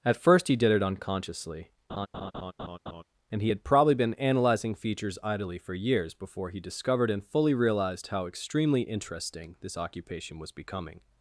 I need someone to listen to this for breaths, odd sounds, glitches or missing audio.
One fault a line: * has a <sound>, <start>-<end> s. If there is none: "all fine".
* has a laugh, 1.9-3.0 s